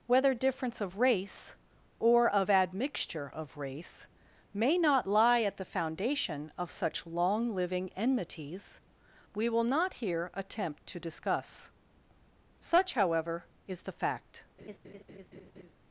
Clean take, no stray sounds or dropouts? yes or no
no